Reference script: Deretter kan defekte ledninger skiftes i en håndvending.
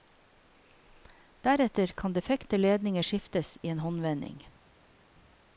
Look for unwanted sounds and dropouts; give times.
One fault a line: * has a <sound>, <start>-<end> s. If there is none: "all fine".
all fine